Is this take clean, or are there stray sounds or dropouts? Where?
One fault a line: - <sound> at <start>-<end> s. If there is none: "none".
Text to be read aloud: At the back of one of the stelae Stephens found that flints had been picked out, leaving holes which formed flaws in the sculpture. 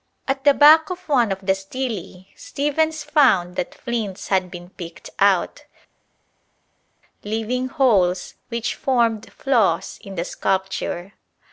none